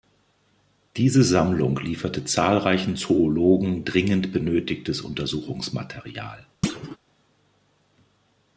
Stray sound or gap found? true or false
true